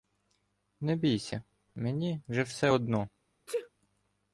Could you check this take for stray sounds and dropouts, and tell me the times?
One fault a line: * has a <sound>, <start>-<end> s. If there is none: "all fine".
* has a sneeze, 3.5-3.7 s